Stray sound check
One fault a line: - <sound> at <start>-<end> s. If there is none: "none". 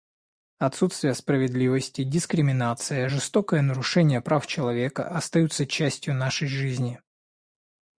none